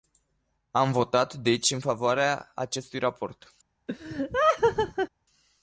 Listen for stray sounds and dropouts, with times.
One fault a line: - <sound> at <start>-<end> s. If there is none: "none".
- laugh at 3.9-5.1 s